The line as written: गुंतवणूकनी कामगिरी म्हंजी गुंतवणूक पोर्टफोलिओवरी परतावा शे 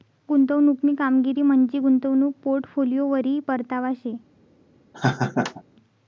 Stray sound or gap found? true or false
true